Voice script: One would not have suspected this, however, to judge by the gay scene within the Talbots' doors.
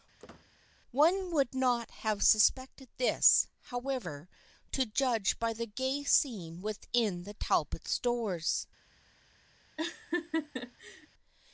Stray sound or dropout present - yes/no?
yes